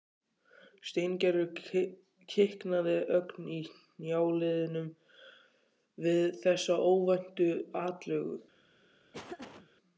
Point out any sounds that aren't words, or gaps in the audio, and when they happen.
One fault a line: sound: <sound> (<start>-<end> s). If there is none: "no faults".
sound: laugh (9.1-9.7 s)